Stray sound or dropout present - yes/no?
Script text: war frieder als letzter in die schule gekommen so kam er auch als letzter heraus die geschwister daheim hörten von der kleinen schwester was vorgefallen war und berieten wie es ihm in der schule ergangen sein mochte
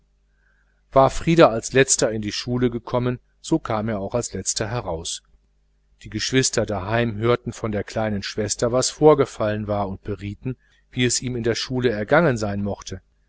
no